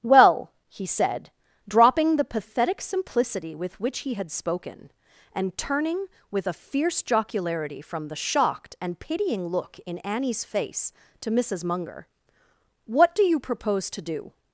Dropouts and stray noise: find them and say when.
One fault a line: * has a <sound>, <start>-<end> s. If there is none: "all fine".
all fine